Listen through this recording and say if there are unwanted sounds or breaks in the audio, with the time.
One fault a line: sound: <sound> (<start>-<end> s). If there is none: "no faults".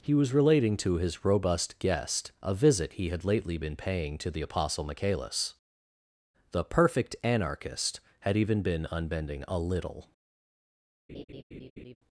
sound: laugh (11.1-12.0 s)